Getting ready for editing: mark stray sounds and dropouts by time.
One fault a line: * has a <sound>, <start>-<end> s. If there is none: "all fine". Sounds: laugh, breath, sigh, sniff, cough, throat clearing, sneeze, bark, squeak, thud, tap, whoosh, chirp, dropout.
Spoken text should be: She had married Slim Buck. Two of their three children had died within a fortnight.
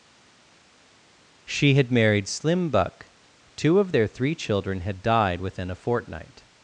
all fine